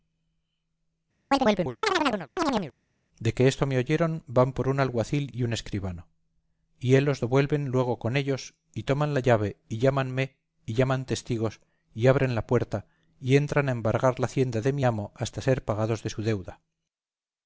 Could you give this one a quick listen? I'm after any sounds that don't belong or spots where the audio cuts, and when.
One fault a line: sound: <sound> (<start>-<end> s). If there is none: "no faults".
sound: chirp (1.3-2.7 s)